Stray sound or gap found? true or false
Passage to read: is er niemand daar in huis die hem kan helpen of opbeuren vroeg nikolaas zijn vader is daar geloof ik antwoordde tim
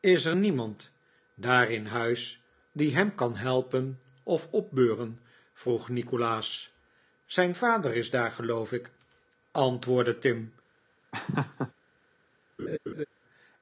true